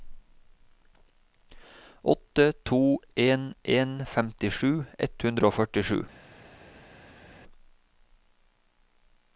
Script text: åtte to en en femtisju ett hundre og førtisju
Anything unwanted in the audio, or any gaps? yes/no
no